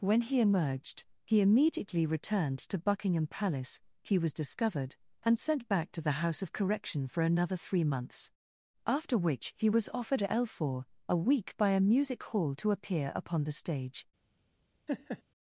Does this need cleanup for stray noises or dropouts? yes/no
yes